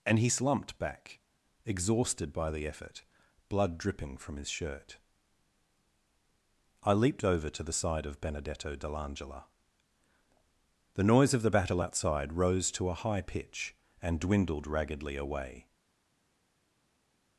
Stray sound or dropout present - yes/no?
no